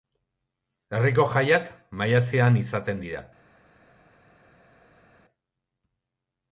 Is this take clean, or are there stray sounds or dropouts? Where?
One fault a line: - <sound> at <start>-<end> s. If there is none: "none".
none